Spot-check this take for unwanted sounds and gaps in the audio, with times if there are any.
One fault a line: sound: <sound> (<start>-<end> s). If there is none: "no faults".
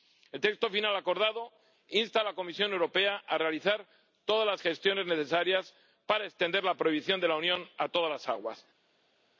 no faults